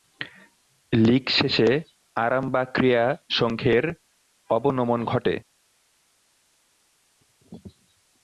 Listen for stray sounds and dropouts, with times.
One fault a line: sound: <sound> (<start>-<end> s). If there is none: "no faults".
no faults